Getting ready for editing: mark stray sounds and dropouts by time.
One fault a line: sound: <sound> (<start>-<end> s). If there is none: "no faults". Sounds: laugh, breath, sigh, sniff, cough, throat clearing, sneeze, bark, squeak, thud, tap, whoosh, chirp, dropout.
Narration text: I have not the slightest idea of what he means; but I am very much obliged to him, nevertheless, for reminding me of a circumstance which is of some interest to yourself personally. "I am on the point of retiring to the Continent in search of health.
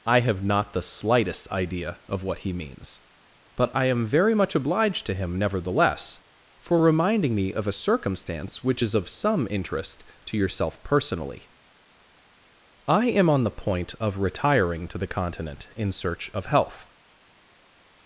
no faults